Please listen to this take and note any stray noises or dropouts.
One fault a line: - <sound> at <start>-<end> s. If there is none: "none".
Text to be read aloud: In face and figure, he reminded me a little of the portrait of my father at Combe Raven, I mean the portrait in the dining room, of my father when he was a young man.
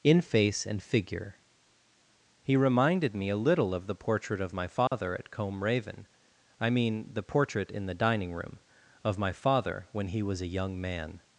- dropout at 4.9-4.9 s